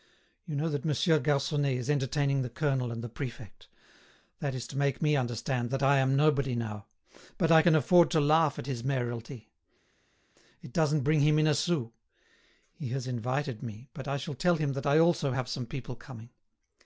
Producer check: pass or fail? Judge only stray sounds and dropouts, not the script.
pass